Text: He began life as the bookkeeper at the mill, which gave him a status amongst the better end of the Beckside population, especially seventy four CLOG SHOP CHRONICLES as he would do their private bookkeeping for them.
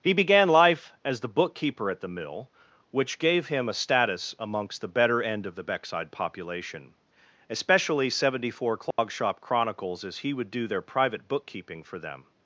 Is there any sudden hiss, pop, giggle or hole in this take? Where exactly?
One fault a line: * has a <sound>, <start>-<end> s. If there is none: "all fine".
* has a dropout, 8.9-9.0 s